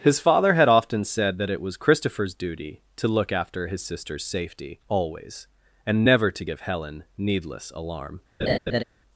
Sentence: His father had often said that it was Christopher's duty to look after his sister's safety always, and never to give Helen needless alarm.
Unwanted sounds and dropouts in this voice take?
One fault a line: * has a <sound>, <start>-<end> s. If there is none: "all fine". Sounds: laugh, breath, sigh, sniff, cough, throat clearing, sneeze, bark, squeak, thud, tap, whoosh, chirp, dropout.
* has a laugh, 8.4-8.8 s